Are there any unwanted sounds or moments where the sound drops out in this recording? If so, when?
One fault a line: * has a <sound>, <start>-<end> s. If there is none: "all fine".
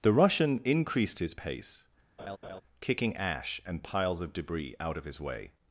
* has a laugh, 2.2-2.6 s